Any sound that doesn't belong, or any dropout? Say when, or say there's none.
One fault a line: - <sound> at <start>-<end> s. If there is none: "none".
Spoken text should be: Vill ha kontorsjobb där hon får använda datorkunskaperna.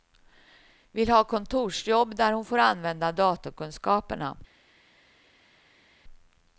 none